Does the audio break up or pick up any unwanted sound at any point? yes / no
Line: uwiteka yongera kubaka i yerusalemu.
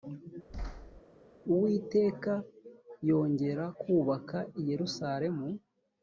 yes